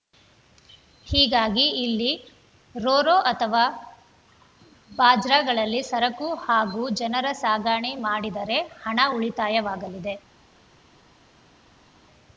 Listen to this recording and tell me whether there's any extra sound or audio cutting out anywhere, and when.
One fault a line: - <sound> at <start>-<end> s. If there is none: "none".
none